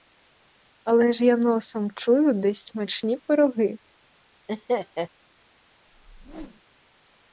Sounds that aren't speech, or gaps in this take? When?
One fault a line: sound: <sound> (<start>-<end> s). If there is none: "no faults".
sound: laugh (4.5-5.1 s)
sound: whoosh (5.9-6.6 s)